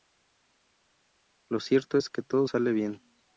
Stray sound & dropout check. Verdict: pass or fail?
pass